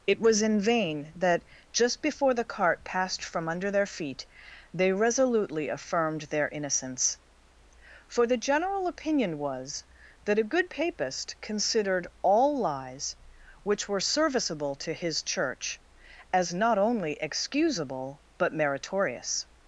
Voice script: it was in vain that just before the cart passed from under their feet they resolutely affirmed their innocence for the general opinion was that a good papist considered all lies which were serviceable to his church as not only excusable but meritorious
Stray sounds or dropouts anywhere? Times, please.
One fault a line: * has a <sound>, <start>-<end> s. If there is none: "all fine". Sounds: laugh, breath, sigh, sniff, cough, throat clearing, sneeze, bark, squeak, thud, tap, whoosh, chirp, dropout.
all fine